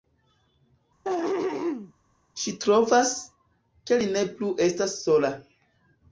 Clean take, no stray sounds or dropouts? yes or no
no